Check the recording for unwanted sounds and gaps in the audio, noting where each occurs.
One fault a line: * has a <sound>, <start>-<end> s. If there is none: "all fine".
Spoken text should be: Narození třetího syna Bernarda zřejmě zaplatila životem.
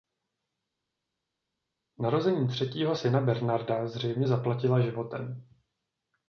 all fine